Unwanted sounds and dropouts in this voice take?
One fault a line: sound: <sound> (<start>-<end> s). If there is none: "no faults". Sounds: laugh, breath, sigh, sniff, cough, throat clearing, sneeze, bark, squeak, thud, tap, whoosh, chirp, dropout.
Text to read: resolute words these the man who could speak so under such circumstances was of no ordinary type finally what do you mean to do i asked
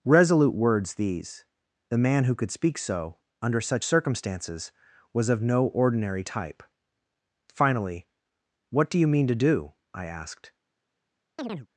sound: chirp (11.4-11.7 s)